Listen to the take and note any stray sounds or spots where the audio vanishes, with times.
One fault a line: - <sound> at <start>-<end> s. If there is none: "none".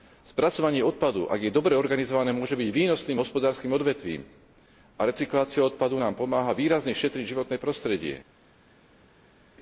none